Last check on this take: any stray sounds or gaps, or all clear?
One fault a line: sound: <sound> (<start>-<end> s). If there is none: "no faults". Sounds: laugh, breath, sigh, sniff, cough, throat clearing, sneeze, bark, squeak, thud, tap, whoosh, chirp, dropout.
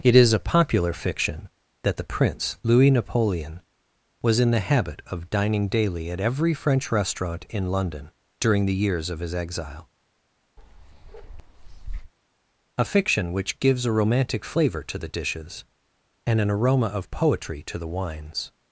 sound: bark (10.6-12.1 s)